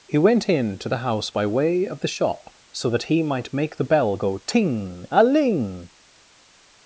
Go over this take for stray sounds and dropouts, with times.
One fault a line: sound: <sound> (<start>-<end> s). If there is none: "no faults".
no faults